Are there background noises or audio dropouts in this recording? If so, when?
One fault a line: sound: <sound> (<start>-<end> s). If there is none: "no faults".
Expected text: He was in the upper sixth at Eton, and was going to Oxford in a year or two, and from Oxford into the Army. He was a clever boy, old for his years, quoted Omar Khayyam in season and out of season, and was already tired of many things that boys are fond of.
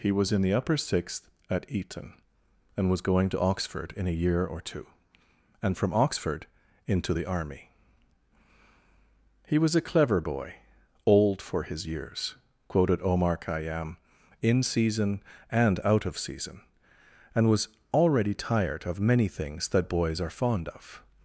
no faults